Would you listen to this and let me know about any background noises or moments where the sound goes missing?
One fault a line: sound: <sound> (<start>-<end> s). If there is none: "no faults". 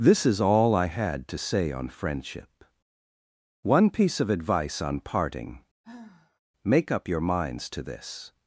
sound: sigh (5.8-6.4 s)